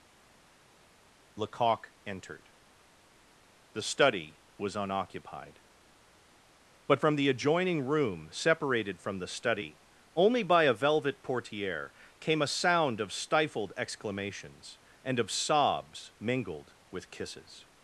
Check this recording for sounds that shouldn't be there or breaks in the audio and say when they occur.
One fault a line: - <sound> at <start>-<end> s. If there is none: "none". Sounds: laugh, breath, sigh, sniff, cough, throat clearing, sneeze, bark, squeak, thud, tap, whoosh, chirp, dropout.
none